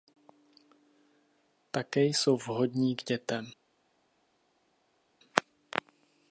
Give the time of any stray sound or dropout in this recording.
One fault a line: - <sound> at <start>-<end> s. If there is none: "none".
none